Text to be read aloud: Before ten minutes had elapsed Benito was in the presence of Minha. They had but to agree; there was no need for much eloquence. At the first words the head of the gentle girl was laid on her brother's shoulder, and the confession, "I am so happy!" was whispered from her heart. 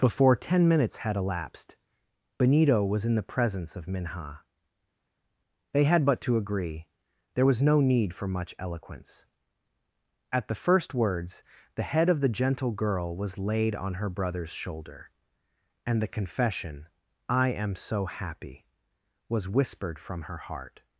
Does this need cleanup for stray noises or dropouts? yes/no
no